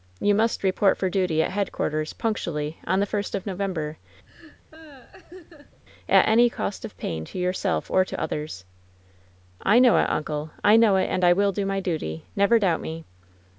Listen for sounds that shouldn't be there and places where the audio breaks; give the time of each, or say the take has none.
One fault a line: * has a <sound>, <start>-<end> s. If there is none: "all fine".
* has a laugh, 4.3-5.8 s